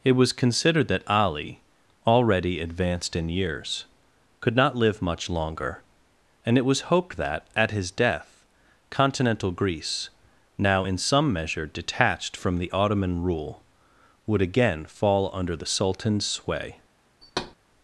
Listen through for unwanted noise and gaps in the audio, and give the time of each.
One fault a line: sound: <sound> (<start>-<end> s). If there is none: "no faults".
sound: thud (17.2-17.6 s)